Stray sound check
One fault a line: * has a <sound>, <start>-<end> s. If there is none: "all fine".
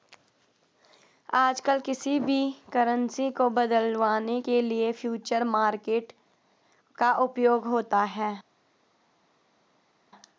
all fine